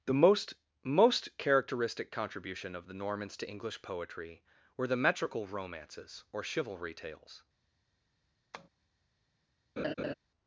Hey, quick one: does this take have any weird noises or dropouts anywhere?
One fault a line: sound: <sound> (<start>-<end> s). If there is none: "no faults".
sound: tap (8.5-8.7 s)
sound: laugh (9.8-10.1 s)